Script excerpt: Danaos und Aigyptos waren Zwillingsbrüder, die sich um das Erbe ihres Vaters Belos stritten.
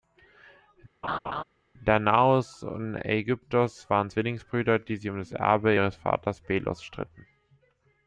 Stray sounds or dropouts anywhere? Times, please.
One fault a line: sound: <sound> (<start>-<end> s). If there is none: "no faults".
sound: laugh (1.0-1.4 s)